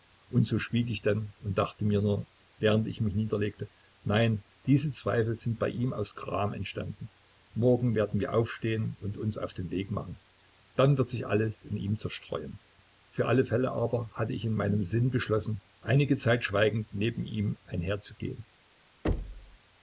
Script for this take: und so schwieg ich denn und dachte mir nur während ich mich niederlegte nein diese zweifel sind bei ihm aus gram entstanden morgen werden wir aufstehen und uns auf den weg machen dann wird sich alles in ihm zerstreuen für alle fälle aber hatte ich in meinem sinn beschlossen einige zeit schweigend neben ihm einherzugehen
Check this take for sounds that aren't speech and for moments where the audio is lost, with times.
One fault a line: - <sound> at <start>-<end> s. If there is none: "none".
- thud at 19.0-19.6 s